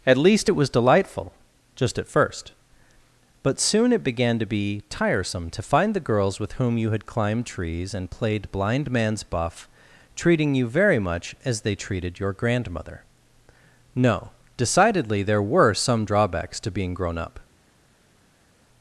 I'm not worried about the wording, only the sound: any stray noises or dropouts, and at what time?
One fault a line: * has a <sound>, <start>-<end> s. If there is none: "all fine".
all fine